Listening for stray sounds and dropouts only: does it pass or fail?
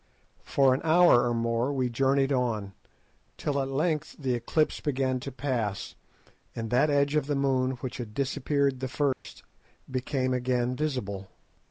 fail